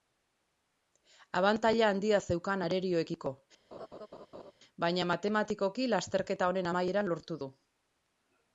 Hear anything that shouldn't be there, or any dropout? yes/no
yes